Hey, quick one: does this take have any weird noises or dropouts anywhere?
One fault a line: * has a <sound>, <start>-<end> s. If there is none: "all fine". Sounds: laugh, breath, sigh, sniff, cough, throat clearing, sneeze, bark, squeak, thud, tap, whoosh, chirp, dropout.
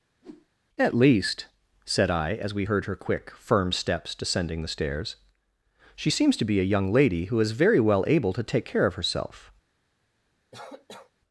* has a whoosh, 0.2-0.5 s
* has a cough, 10.5-11.1 s